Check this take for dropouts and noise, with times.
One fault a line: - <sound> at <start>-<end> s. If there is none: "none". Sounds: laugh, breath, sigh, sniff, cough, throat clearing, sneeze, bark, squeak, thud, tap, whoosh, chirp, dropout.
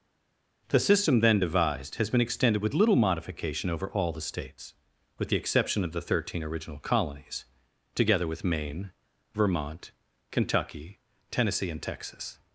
none